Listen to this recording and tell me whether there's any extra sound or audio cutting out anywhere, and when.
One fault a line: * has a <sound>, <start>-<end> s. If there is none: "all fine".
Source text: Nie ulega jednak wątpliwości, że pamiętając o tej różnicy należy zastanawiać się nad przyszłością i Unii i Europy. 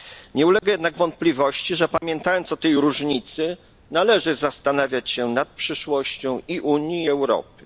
* has a dropout, 0.6-0.6 s
* has a dropout, 2.0-2.0 s